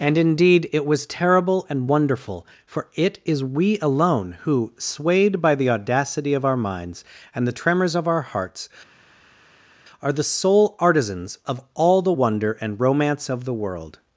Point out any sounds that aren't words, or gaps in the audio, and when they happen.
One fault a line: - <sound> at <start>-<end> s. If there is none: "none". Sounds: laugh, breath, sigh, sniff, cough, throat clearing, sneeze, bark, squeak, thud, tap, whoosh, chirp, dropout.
none